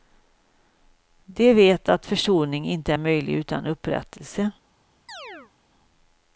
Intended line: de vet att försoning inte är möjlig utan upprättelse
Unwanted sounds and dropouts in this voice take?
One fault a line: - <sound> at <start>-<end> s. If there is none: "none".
- chirp at 5.1-5.5 s